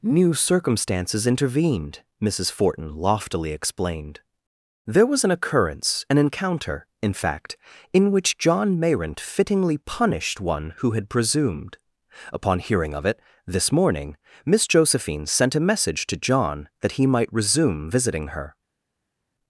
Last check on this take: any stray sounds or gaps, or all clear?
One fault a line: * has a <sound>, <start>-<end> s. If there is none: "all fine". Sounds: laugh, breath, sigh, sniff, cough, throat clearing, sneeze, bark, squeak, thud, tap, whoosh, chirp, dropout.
all fine